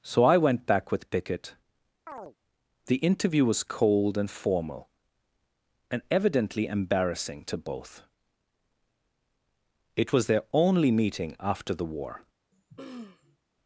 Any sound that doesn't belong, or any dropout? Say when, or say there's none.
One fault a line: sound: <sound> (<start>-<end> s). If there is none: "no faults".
sound: chirp (2.1-2.4 s)
sound: throat clearing (12.5-13.4 s)